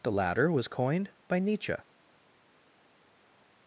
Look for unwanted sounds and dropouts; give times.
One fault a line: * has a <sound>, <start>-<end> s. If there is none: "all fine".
all fine